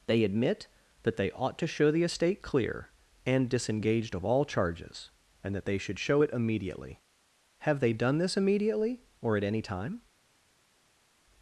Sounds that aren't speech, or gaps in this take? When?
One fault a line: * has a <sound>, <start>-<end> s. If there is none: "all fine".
all fine